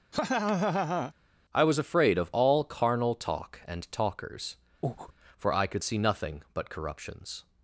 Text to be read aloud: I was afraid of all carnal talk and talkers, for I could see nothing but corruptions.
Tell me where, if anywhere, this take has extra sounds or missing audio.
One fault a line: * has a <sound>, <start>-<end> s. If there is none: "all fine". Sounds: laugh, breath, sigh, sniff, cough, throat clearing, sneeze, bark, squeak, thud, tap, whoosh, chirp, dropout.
* has a laugh, 0.1-1.1 s
* has a breath, 4.8-5.1 s